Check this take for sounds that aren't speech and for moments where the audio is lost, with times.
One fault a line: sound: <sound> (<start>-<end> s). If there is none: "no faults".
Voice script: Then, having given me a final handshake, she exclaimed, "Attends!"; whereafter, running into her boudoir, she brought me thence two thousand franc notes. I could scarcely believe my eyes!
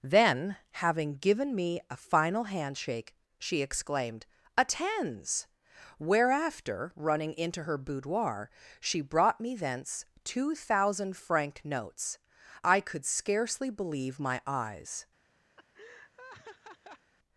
sound: laugh (15.6-17.1 s)